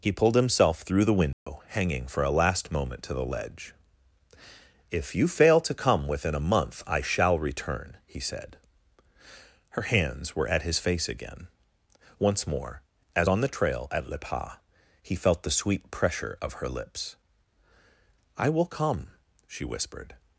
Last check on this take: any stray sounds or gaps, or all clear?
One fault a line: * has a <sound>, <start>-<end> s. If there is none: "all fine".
* has a dropout, 1.3-1.5 s